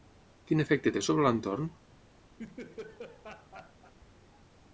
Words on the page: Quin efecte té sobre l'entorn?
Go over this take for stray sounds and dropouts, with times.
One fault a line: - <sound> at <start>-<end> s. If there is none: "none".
- laugh at 2.4-3.9 s